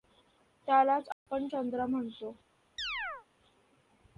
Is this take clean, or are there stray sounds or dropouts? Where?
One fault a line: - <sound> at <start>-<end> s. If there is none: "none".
- dropout at 1.1-1.3 s
- chirp at 2.8-3.3 s